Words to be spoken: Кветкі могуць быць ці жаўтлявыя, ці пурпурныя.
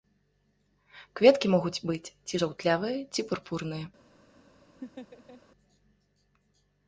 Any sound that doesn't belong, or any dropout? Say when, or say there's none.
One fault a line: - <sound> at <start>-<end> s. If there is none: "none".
- laugh at 4.8-5.4 s